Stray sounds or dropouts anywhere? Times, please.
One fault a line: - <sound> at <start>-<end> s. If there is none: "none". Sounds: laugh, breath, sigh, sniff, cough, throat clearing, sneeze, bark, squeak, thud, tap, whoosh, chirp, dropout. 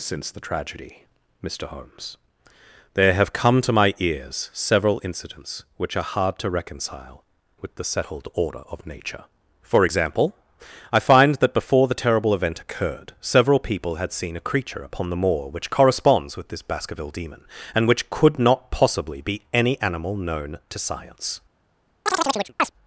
- chirp at 22.1-22.7 s